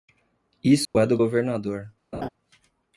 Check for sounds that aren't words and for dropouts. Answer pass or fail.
fail